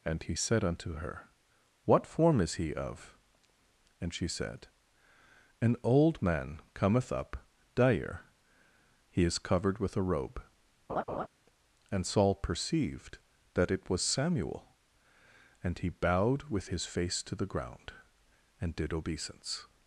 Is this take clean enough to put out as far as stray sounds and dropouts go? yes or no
no